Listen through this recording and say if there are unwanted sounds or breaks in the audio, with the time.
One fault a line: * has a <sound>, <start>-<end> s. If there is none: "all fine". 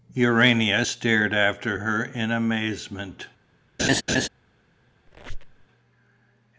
* has a laugh, 3.8-4.3 s
* has a squeak, 5.1-5.7 s